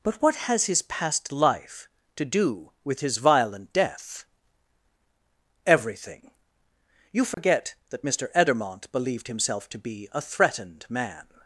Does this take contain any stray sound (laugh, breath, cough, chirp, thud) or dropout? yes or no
yes